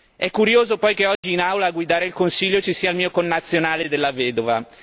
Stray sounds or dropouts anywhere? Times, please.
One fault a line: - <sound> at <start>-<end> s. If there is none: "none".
- dropout at 1.2-1.2 s